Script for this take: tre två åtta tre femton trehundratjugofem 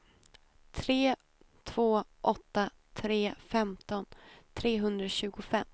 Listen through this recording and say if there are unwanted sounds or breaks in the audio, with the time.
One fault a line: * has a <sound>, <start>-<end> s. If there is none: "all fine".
all fine